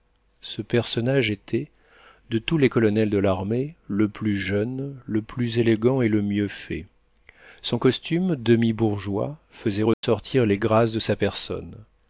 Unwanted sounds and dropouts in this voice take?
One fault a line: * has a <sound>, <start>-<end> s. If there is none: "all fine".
* has a dropout, 9.9-10.0 s